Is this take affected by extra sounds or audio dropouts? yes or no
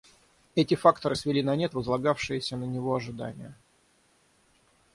no